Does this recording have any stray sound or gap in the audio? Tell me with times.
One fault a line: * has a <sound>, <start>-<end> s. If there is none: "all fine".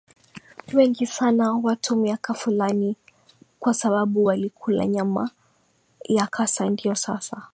all fine